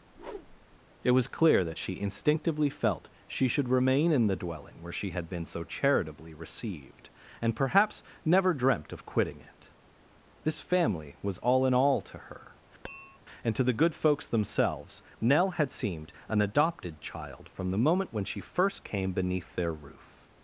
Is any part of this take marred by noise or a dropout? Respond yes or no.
yes